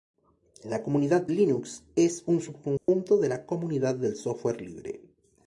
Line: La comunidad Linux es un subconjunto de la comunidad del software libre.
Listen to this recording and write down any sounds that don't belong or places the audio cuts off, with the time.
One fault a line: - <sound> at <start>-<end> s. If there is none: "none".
- dropout at 2.8-2.9 s